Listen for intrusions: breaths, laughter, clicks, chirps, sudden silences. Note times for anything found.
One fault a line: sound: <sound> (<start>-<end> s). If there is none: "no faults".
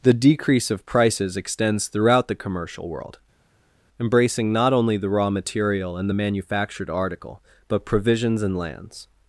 no faults